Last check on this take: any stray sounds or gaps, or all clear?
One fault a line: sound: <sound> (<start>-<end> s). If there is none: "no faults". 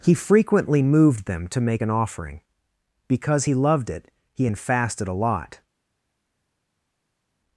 no faults